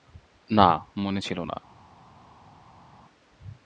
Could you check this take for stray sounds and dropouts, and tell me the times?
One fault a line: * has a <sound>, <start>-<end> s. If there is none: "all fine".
all fine